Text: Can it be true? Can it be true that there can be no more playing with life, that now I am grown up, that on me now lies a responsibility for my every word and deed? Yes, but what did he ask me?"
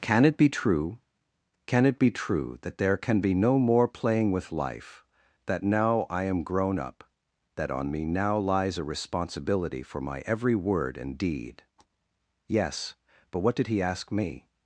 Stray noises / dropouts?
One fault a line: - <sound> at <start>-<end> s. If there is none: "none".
none